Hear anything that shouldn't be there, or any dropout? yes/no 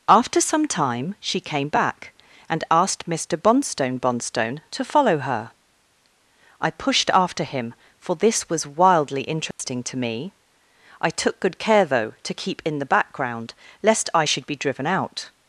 yes